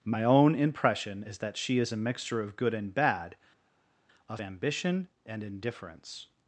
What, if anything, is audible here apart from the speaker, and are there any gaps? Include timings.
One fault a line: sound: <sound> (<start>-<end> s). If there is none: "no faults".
no faults